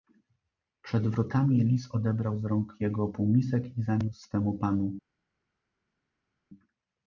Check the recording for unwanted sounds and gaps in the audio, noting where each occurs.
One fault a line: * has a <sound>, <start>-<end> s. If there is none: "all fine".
all fine